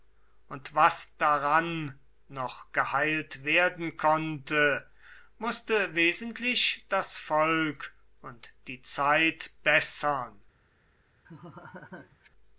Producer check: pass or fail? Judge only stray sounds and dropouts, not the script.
fail